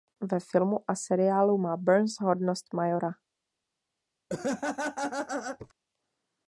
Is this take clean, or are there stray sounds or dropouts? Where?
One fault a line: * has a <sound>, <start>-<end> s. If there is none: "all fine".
* has a laugh, 4.3-5.7 s